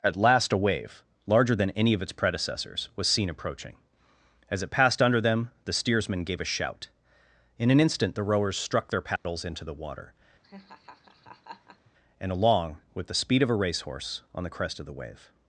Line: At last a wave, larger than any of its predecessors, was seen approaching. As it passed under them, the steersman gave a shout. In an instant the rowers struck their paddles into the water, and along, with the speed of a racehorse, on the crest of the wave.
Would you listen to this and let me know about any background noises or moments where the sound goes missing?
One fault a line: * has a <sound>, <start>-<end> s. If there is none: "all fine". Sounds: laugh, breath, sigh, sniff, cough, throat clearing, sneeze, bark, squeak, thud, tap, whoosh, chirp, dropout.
* has a dropout, 9.2-9.2 s
* has a laugh, 10.4-11.9 s